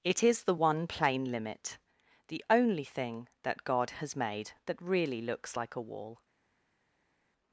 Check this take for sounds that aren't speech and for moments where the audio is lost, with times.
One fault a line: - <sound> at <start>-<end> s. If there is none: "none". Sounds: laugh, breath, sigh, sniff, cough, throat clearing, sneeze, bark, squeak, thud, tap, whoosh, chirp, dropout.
none